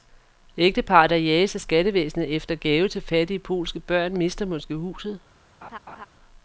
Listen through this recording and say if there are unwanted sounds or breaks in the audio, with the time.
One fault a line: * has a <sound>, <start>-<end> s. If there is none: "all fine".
* has a laugh, 5.6-6.1 s